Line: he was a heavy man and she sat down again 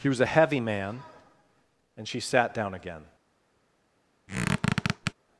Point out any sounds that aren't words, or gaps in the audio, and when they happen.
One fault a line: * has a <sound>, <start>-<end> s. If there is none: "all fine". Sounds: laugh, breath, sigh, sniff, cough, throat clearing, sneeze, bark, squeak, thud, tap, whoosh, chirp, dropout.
* has a squeak, 4.3-5.1 s